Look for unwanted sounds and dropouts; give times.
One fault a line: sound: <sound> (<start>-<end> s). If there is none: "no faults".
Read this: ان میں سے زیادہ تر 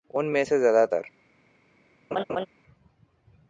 sound: laugh (2.1-2.5 s)